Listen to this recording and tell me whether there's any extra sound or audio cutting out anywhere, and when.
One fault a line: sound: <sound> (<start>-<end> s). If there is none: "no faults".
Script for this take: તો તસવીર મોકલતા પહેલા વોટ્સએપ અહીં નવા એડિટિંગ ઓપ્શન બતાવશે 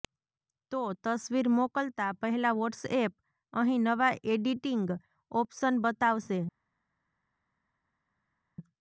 no faults